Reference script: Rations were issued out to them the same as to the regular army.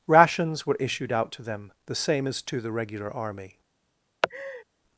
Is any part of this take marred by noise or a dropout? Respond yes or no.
yes